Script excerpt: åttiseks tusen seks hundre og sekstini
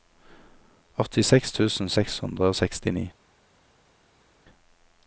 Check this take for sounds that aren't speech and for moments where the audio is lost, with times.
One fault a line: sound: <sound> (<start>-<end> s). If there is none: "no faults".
no faults